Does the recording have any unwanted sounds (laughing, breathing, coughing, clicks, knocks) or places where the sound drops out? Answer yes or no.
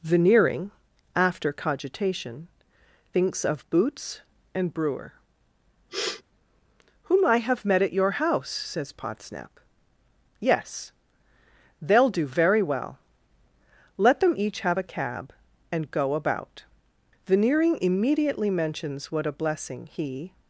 yes